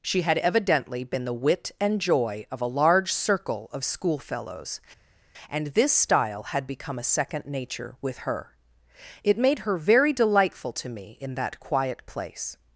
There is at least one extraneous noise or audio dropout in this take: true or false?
false